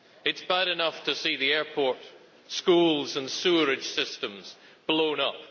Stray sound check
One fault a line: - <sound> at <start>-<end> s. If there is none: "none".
none